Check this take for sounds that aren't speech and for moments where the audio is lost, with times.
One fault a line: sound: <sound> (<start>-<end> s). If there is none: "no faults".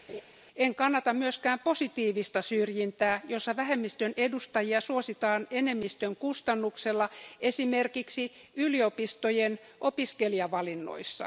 sound: laugh (0.1-0.2 s)